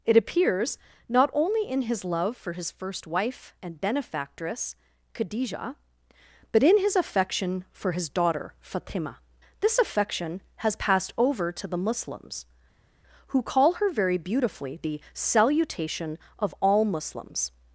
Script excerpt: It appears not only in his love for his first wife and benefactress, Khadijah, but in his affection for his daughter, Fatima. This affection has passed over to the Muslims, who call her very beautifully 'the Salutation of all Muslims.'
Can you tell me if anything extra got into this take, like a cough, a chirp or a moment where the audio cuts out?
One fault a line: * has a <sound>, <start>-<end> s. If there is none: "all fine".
all fine